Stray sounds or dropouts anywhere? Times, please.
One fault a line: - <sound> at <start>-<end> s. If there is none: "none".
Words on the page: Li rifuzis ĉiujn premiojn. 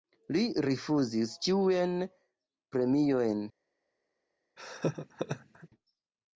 - laugh at 4.6-5.7 s